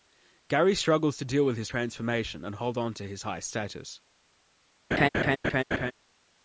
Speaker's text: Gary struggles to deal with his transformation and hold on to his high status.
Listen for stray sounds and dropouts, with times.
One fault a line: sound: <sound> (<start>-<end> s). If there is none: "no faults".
sound: laugh (4.9-5.9 s)